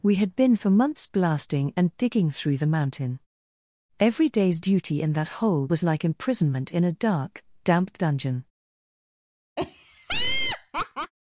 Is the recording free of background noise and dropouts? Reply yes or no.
no